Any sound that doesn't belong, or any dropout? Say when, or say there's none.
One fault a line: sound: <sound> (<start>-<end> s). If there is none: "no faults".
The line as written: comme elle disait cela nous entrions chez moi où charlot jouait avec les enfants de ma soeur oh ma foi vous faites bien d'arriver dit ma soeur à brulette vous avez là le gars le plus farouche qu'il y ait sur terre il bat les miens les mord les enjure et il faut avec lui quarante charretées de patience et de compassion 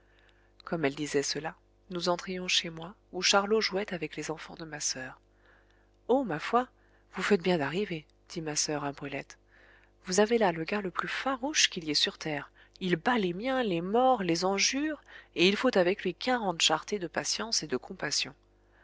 no faults